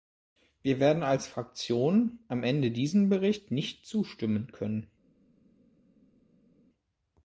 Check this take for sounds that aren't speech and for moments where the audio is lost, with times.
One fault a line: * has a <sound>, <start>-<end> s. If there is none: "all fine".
all fine